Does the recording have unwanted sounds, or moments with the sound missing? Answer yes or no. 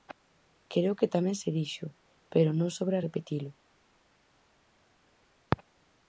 no